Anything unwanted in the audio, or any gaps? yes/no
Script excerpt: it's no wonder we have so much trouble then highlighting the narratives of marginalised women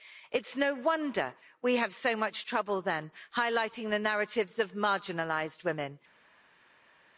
no